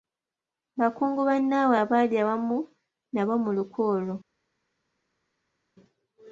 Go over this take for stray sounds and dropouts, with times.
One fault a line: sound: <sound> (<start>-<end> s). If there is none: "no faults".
no faults